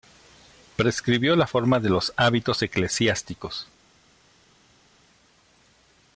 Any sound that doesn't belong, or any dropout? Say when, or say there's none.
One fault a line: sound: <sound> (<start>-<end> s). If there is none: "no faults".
no faults